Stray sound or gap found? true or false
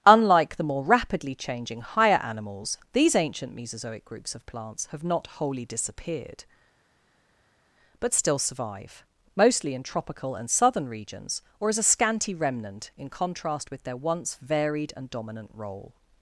false